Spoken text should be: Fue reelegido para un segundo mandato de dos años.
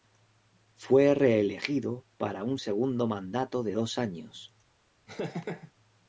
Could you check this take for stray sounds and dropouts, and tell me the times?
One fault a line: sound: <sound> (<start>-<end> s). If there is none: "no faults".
sound: laugh (5.1-5.7 s)